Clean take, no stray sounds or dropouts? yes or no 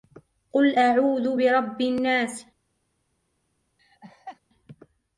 no